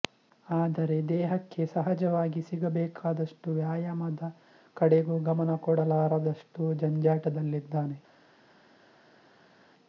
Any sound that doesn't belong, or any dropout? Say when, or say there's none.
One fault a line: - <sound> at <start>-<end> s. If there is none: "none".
none